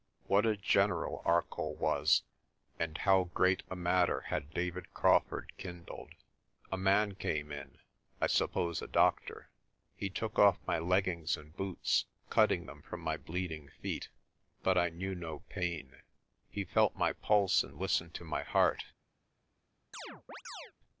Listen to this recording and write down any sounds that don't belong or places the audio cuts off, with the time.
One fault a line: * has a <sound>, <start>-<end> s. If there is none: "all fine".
* has a chirp, 19.9-20.7 s